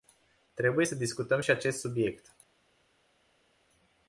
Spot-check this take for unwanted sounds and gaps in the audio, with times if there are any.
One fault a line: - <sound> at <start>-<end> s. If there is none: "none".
none